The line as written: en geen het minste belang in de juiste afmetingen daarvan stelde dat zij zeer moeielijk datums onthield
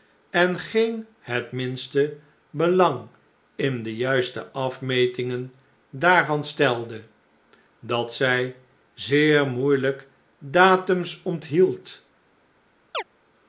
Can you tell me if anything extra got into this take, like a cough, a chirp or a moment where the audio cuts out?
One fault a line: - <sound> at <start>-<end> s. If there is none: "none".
- chirp at 12.9-13.0 s